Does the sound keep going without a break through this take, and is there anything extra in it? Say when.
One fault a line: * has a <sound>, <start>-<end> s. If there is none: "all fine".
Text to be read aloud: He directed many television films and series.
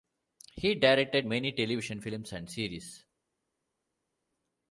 all fine